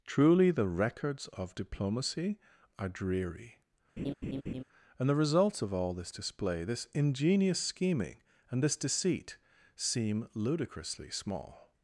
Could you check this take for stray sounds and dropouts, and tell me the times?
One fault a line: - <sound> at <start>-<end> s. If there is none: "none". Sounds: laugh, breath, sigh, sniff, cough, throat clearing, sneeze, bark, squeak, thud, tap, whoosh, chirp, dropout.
- laugh at 4.0-4.6 s